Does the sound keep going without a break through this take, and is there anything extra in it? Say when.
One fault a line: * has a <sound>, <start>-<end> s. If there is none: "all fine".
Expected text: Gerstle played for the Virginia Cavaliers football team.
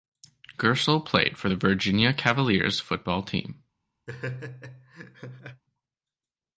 * has a laugh, 4.1-5.6 s